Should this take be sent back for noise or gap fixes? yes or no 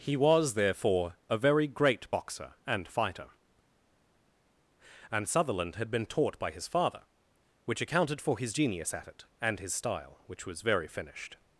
no